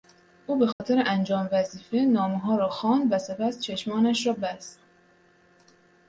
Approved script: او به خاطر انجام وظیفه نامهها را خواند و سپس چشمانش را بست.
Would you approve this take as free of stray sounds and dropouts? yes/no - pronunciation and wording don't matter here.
no